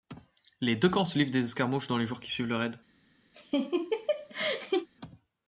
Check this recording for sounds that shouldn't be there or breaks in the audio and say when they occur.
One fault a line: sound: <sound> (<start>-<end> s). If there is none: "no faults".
sound: laugh (3.3-4.9 s)